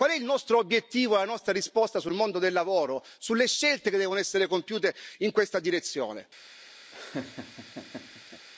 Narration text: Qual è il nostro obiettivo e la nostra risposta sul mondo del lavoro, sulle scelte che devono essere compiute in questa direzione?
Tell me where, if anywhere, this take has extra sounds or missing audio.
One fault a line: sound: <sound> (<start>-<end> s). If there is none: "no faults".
sound: laugh (6.9-8.5 s)